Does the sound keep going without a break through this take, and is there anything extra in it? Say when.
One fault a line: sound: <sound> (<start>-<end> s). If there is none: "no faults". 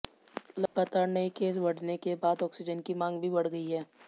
sound: dropout (0.7-0.8 s)